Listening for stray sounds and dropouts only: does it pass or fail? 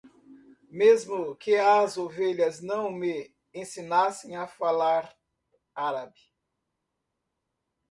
pass